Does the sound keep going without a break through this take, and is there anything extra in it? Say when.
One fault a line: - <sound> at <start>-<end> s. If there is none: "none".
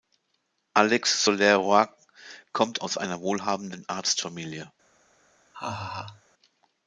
- laugh at 5.5-6.2 s